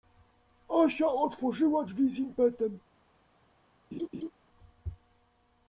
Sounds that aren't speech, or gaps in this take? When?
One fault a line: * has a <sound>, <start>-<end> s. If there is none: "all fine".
* has a laugh, 3.9-4.3 s